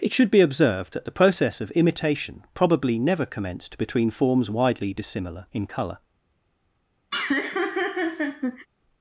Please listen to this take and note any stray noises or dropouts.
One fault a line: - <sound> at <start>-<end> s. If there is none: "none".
- laugh at 7.1-8.7 s